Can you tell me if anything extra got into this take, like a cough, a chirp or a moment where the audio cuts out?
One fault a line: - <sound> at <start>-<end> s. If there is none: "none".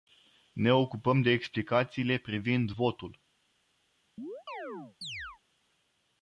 - chirp at 4.2-5.4 s